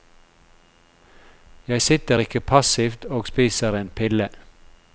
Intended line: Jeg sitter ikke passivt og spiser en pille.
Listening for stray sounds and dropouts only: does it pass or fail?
pass